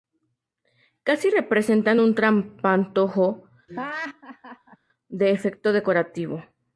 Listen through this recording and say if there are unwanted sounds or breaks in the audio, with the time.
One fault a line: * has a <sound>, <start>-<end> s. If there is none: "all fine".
* has a laugh, 3.7-4.8 s